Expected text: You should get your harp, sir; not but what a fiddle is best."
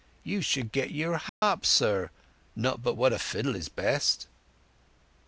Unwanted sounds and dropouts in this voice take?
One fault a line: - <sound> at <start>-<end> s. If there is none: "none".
- dropout at 1.3-1.4 s